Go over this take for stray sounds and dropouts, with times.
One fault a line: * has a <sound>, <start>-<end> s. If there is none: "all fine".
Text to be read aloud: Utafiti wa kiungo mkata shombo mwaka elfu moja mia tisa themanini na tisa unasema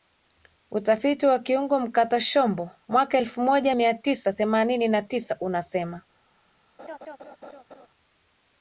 * has a laugh, 6.8-7.9 s